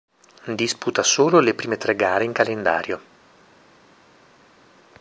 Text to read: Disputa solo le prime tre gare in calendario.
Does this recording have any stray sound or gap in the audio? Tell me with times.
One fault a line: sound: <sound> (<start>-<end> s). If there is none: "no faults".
no faults